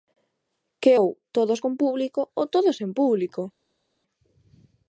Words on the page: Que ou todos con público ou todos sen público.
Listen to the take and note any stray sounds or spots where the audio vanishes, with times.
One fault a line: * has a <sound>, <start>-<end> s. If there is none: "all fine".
all fine